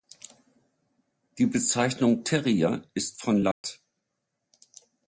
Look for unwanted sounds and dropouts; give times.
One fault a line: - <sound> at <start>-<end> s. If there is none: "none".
- dropout at 3.5-3.6 s